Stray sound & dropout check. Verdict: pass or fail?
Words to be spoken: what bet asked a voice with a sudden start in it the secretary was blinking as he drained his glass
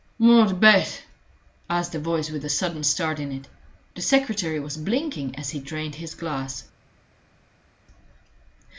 pass